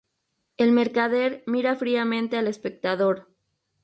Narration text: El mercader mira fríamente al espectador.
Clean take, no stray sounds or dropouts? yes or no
yes